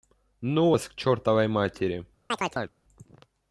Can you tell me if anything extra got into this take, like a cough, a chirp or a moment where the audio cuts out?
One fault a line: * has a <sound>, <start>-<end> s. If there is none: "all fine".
* has a chirp, 2.3-2.7 s